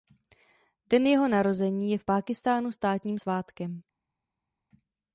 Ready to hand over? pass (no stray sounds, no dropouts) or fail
pass